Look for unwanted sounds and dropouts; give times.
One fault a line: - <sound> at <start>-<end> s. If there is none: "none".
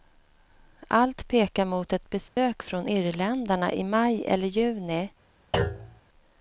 - dropout at 2.3-2.4 s
- thud at 5.5-6.0 s